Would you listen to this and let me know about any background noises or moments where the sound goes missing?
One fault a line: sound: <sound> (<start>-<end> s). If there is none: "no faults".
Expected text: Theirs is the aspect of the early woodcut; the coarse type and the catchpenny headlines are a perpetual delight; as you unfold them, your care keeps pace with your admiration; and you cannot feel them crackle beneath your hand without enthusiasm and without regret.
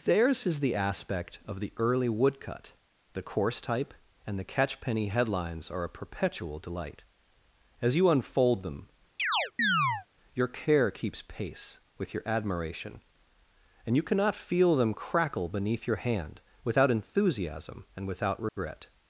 sound: chirp (9.2-10.1 s)
sound: dropout (18.5-18.6 s)